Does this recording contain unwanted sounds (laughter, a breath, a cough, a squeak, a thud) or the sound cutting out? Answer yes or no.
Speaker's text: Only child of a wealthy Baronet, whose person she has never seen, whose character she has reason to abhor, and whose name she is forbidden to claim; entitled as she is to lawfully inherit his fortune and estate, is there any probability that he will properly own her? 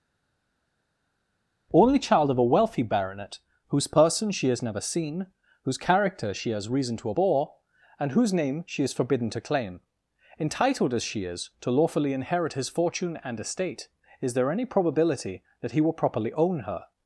no